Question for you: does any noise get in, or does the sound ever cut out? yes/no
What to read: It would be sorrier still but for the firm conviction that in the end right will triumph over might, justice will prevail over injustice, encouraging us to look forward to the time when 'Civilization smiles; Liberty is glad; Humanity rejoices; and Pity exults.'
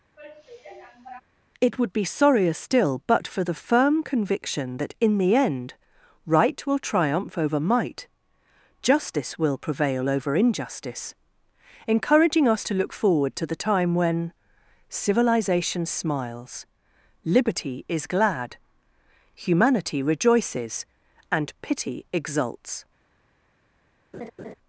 yes